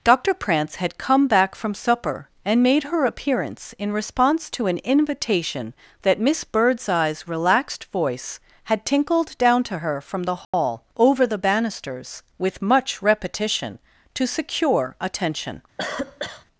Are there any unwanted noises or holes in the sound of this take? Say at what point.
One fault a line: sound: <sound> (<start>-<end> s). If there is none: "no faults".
sound: dropout (10.4-10.5 s)
sound: cough (15.8-16.5 s)